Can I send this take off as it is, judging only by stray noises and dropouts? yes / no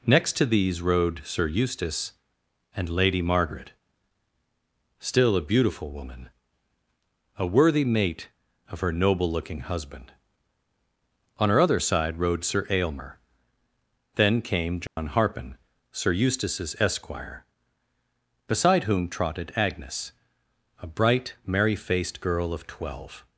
no